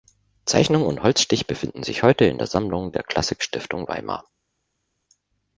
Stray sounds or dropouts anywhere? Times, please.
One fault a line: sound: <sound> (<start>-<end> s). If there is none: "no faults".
no faults